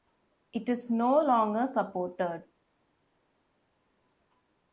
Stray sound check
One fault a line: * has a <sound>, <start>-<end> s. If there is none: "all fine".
all fine